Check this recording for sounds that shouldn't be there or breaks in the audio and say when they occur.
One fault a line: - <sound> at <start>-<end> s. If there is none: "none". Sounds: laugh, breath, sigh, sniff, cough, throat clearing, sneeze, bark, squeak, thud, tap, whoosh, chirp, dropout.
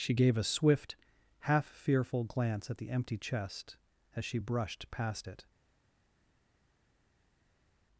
none